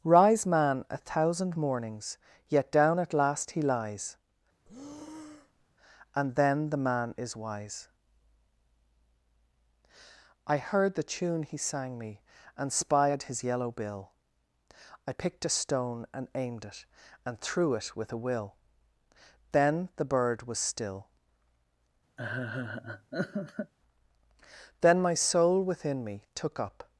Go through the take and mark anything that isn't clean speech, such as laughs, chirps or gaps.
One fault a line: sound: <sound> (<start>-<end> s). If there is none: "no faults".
sound: breath (4.7-5.7 s)
sound: laugh (22.2-23.7 s)